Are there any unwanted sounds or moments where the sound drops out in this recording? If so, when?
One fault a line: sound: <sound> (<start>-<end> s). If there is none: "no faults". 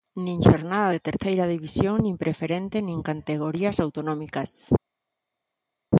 no faults